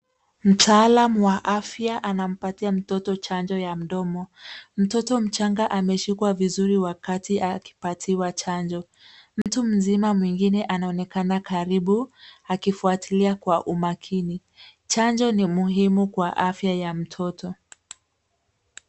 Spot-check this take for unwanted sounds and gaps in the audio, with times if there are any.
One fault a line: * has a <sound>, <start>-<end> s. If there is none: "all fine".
* has a dropout, 9.4-9.5 s